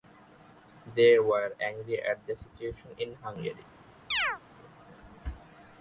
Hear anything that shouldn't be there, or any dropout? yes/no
yes